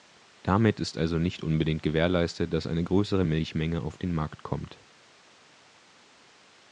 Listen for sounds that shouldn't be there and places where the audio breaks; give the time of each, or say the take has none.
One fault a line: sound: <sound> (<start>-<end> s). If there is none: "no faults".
no faults